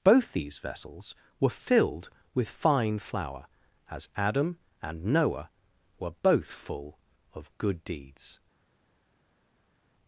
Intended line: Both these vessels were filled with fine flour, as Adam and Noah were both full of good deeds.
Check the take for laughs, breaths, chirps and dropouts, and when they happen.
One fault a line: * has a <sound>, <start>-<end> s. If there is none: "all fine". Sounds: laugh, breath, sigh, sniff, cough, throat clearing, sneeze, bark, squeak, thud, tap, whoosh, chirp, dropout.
all fine